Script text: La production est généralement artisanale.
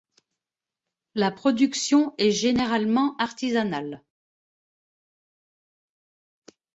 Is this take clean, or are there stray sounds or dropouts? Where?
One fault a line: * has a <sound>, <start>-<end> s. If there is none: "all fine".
all fine